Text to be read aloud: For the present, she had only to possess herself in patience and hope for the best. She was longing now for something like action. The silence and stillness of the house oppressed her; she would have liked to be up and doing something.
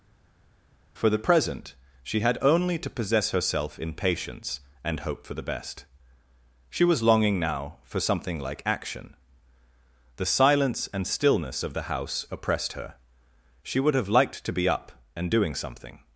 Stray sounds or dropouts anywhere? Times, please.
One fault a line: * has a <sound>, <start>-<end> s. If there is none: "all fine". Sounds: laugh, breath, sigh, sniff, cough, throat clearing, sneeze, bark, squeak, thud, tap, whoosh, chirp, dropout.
all fine